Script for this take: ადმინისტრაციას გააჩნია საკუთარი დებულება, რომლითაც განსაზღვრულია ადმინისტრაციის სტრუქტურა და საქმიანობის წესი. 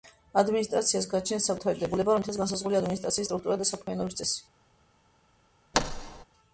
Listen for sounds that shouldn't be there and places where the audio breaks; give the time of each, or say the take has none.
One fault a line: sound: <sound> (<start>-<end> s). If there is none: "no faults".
sound: thud (5.7-6.2 s)